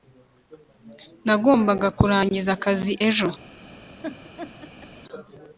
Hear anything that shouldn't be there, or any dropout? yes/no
yes